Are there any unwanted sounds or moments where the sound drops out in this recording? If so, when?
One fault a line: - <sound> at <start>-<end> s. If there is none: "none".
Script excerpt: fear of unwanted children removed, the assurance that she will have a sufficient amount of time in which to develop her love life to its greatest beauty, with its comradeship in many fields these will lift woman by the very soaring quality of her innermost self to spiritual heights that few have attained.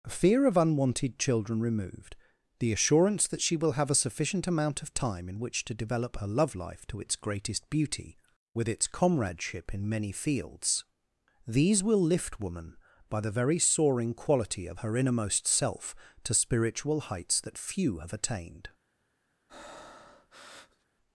- breath at 19.5-20.9 s